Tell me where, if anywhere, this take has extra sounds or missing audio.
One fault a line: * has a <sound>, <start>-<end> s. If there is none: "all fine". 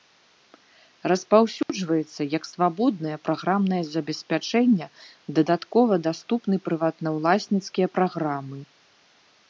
* has a dropout, 1.6-1.7 s